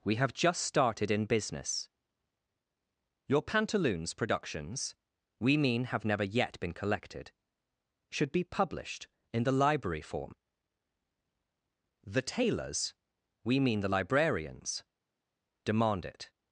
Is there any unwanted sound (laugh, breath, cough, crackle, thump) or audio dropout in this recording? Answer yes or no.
no